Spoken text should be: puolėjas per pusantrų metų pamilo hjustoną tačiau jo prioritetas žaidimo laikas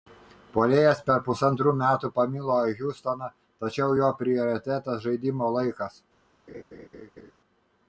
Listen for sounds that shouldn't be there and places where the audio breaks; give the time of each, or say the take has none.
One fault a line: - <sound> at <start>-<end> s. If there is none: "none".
- laugh at 6.5-7.3 s